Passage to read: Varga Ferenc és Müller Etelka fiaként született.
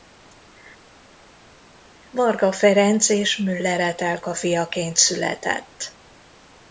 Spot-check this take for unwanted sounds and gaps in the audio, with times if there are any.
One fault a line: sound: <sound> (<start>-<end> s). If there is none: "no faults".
no faults